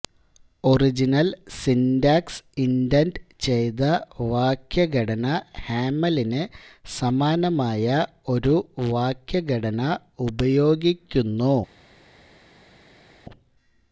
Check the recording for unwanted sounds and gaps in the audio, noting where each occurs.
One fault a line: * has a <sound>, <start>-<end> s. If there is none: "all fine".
all fine